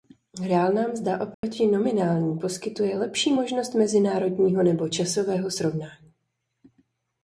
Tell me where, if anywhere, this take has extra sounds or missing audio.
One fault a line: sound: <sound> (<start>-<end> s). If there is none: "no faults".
sound: dropout (1.3-1.4 s)